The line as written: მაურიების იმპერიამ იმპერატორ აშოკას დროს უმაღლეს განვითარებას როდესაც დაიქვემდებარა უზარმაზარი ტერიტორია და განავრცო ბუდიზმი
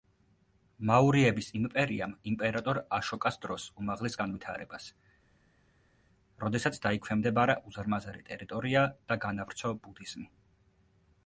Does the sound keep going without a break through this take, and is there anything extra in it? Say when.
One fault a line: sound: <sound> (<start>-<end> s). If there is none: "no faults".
no faults